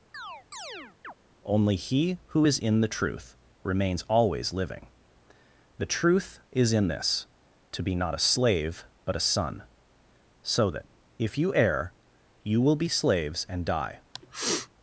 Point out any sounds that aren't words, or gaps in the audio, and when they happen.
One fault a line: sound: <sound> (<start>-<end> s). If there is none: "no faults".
sound: chirp (0.1-1.1 s)
sound: sniff (14.1-14.7 s)